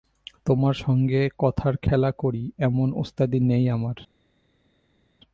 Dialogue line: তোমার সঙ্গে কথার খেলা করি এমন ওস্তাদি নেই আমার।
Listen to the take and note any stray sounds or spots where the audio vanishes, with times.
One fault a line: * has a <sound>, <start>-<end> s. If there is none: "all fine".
all fine